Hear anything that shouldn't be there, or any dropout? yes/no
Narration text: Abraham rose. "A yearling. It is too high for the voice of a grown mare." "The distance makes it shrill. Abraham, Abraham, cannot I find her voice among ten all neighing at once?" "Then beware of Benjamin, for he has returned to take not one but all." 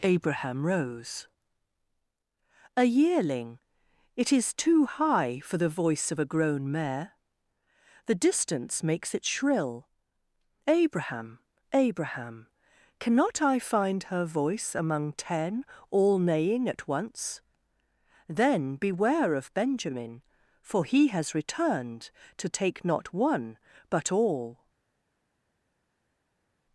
no